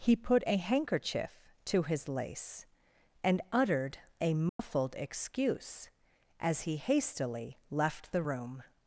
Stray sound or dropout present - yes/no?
yes